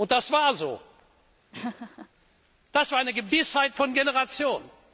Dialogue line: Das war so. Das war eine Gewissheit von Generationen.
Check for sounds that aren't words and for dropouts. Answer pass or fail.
fail